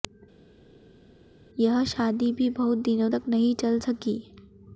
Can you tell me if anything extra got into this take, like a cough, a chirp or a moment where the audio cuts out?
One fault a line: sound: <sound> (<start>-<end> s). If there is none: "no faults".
no faults